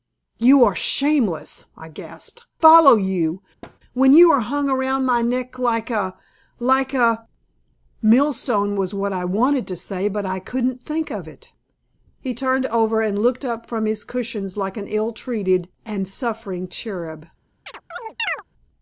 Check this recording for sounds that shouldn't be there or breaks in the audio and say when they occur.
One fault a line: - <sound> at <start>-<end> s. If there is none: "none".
- thud at 3.6-3.8 s
- chirp at 17.7-18.4 s